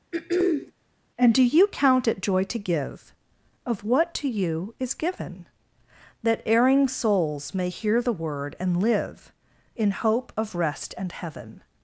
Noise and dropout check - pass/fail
fail